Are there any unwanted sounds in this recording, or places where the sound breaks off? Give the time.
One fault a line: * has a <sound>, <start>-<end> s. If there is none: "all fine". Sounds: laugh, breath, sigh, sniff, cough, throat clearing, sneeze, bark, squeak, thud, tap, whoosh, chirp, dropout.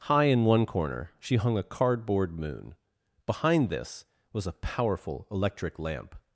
all fine